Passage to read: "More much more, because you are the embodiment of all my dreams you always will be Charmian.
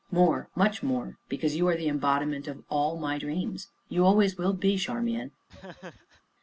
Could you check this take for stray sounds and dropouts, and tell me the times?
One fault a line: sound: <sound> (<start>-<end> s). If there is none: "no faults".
sound: laugh (5.5-6.2 s)